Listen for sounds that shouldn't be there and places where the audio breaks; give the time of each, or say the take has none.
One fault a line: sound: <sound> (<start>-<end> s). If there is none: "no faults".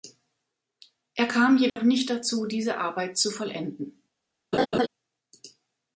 sound: dropout (1.7-1.8 s)
sound: laugh (4.5-4.9 s)